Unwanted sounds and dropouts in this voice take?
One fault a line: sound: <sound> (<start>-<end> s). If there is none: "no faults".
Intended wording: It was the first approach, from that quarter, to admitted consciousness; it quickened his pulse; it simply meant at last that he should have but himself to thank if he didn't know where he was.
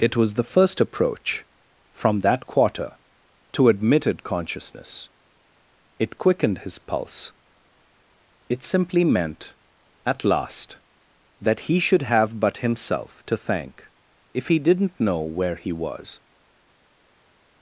no faults